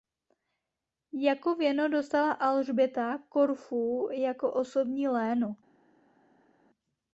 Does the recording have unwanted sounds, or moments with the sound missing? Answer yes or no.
no